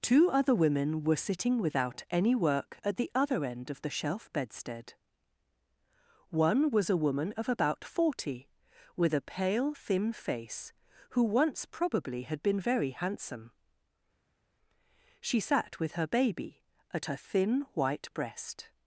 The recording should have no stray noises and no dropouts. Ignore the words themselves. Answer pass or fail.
pass